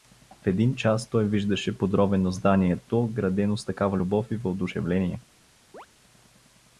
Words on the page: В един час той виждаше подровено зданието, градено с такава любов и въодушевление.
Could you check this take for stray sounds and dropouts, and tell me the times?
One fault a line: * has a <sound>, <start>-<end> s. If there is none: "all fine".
* has a chirp, 5.7-5.9 s